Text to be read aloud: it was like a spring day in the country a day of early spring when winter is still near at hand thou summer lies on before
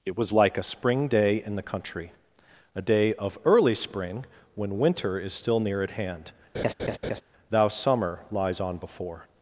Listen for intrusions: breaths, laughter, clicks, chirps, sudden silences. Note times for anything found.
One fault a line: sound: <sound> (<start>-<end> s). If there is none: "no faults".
sound: laugh (6.5-7.2 s)